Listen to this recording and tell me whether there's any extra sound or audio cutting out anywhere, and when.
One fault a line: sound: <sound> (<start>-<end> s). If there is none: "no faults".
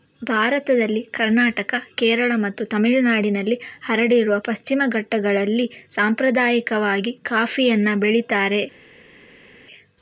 no faults